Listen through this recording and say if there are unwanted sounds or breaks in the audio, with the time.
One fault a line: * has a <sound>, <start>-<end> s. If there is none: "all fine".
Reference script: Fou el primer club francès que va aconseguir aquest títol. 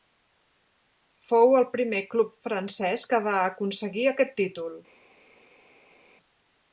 all fine